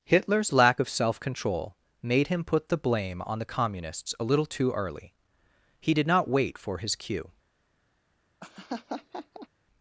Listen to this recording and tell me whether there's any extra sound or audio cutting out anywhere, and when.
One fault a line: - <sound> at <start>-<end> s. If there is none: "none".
- laugh at 8.4-9.5 s